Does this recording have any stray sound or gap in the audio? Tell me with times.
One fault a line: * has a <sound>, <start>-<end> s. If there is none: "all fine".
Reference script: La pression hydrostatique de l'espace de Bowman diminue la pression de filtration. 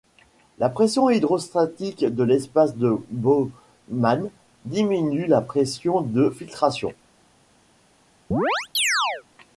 * has a chirp, 8.3-9.2 s